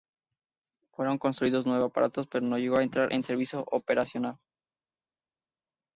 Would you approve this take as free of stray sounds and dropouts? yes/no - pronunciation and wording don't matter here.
yes